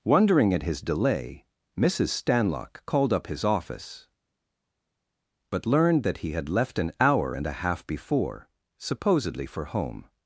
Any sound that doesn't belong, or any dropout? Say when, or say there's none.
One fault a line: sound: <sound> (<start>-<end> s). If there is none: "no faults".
no faults